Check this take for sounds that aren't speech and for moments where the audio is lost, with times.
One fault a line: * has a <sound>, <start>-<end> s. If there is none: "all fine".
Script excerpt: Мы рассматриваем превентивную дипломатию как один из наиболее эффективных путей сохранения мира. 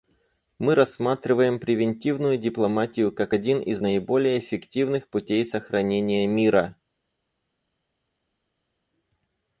all fine